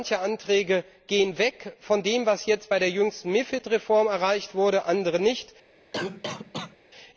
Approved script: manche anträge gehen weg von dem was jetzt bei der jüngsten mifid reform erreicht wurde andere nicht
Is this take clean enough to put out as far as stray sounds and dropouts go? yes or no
no